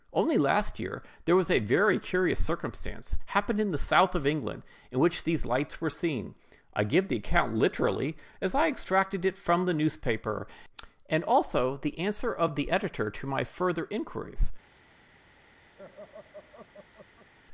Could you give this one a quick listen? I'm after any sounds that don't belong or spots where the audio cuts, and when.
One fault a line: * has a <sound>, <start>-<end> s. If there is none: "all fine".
* has a laugh, 15.8-17.3 s